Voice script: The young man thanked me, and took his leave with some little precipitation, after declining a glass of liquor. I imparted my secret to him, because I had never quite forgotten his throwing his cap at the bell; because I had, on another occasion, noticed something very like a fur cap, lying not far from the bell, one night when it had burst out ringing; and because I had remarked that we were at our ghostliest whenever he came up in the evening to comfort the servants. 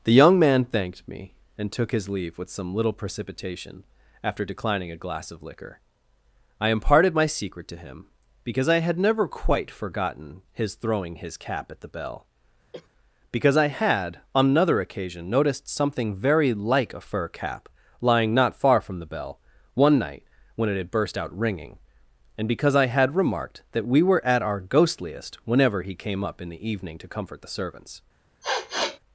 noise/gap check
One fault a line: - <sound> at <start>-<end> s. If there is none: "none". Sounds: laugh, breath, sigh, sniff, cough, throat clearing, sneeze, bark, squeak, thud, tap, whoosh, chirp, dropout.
- cough at 12.7-12.9 s
- sniff at 28.4-29.0 s